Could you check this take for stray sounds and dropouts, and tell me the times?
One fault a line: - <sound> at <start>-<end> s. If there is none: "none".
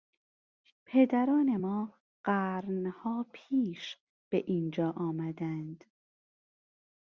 none